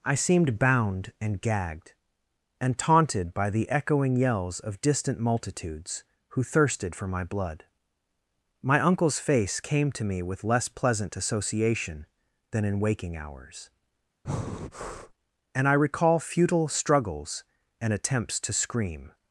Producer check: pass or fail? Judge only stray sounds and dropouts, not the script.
fail